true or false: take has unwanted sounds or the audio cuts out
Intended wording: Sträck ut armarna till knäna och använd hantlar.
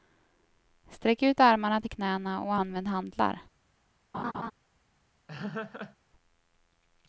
true